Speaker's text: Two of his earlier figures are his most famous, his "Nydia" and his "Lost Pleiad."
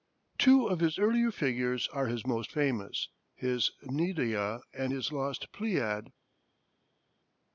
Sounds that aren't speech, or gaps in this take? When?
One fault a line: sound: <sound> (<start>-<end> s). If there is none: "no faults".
no faults